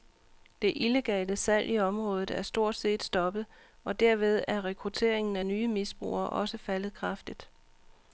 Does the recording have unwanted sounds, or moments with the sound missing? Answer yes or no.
no